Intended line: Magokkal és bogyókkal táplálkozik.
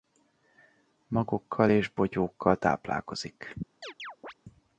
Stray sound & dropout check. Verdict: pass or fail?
fail